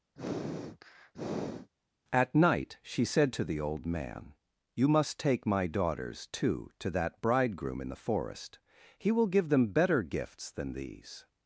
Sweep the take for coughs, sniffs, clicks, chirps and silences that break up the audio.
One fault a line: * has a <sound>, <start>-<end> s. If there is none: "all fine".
* has a sniff, 0.1-1.7 s